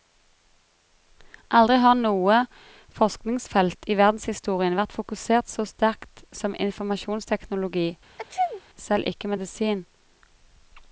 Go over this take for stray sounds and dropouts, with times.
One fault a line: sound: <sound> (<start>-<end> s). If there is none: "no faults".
sound: sneeze (8.2-8.6 s)